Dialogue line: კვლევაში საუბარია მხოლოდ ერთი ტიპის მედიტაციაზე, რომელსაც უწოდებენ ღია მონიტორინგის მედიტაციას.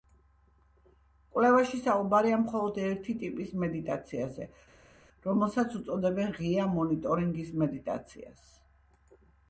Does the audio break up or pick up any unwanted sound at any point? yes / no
no